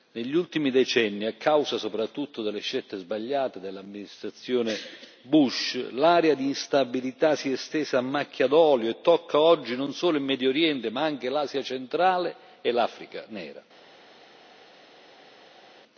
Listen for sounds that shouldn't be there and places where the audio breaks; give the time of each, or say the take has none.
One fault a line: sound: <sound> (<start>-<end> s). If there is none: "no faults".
no faults